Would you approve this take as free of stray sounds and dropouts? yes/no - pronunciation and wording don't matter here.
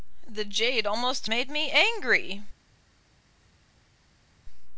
yes